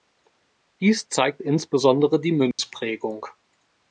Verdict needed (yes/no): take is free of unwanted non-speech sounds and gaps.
no